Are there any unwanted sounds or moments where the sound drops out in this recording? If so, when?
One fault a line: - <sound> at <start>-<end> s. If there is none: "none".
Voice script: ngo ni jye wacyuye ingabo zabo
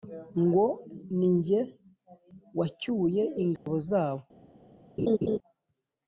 - dropout at 3.6-3.7 s
- laugh at 5.0-5.4 s